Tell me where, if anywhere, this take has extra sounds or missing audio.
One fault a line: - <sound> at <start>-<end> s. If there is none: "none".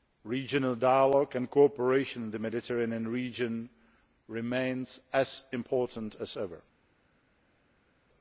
none